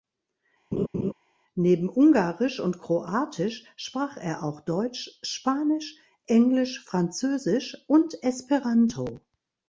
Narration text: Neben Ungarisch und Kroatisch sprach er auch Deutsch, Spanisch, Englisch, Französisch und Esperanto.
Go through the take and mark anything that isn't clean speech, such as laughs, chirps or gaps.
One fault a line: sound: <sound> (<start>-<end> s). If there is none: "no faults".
sound: laugh (0.7-1.1 s)